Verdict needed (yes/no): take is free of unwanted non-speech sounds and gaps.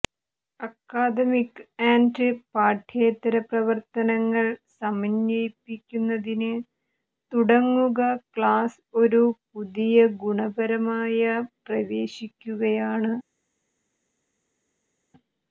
yes